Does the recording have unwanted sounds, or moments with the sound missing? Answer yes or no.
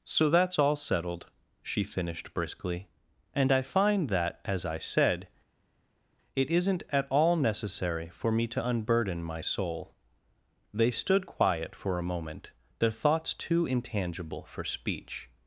no